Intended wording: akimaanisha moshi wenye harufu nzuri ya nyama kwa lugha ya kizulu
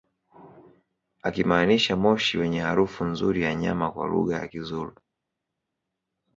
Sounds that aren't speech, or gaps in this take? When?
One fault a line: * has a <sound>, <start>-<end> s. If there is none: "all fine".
all fine